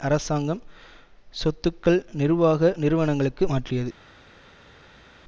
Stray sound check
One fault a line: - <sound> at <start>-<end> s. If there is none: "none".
none